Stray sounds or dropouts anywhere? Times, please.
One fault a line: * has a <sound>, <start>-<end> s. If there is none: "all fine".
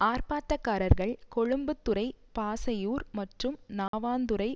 * has a dropout, 3.9-3.9 s